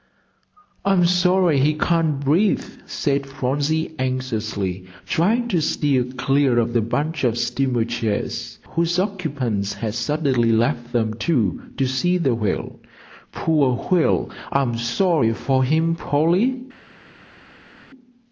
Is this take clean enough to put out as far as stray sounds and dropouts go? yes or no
yes